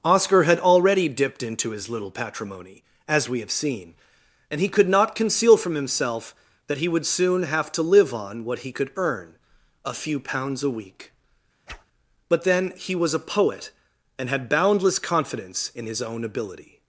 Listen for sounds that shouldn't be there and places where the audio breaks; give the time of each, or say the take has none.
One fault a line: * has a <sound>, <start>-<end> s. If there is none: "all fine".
* has a whoosh, 11.7-11.9 s